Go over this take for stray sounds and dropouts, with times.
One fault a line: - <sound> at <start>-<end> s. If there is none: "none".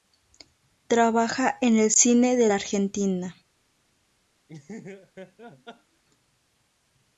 - laugh at 4.5-6.0 s